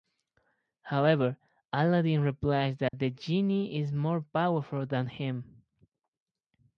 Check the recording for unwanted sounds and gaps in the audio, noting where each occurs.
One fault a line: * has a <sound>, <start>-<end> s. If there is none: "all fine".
* has a dropout, 2.9-2.9 s